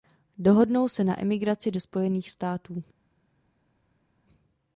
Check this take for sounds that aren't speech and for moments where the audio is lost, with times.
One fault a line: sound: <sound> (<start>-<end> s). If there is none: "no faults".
no faults